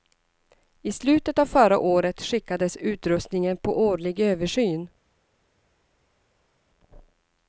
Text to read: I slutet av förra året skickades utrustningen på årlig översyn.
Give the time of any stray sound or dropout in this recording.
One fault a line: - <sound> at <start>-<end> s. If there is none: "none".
none